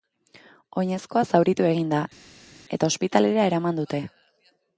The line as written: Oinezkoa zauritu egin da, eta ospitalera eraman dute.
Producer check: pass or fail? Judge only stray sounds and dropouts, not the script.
pass